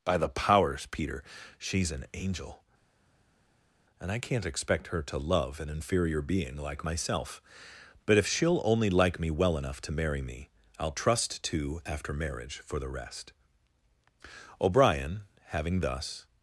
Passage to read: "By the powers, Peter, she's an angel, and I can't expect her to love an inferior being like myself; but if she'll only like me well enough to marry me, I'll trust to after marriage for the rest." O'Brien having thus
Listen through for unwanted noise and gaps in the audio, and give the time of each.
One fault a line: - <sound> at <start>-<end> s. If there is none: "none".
none